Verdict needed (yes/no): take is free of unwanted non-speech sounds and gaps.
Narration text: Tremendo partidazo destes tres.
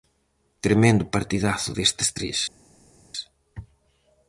yes